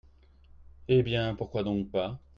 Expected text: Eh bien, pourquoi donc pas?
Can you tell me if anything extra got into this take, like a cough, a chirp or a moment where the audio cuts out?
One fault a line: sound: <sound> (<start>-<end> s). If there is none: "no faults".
no faults